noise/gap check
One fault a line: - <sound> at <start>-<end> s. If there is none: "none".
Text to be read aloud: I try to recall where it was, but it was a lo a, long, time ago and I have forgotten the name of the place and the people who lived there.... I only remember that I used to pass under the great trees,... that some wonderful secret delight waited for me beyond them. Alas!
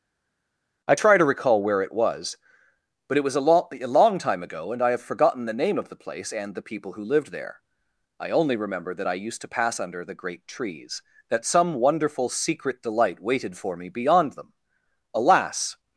none